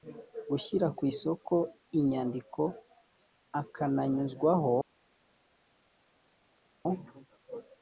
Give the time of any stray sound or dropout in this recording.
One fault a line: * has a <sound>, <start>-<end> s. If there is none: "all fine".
all fine